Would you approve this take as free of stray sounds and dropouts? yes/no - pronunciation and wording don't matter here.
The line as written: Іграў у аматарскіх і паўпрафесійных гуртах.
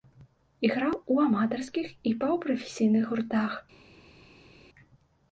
yes